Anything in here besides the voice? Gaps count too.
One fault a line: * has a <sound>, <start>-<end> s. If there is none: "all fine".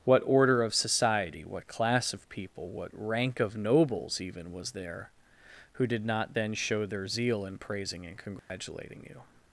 * has a dropout, 8.4-8.5 s